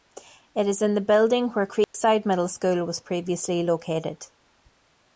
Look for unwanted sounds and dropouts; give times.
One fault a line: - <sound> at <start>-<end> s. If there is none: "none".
- dropout at 1.8-1.9 s